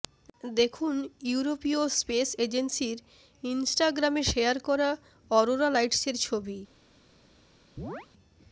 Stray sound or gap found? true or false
true